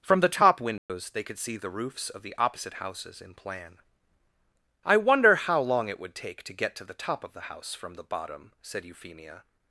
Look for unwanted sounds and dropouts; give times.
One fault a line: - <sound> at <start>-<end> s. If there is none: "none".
- dropout at 0.8-0.9 s